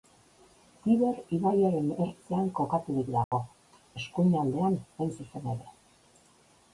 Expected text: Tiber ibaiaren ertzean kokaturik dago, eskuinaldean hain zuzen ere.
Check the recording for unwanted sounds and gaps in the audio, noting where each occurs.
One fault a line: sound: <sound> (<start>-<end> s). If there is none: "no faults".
sound: dropout (3.2-3.3 s)